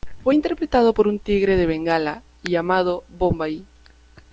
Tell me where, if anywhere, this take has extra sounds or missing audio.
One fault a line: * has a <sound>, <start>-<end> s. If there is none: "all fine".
all fine